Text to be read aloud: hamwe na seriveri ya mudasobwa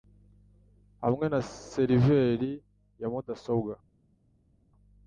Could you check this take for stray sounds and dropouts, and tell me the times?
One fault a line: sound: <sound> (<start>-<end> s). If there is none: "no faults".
no faults